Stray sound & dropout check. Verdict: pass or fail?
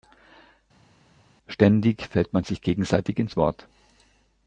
pass